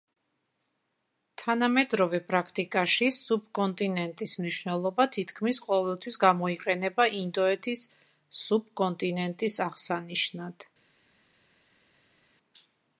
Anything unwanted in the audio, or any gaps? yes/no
no